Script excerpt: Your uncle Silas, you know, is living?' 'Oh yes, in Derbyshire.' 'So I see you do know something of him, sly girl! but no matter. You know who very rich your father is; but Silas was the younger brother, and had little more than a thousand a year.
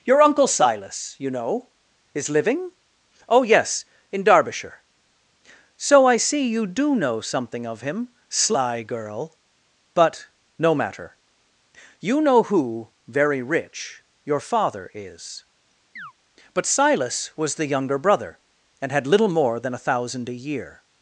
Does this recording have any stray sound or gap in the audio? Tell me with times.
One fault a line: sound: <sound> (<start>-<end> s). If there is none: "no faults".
sound: chirp (16.0-16.1 s)